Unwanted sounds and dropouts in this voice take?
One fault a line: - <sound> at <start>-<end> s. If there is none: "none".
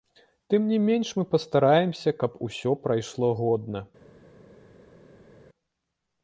none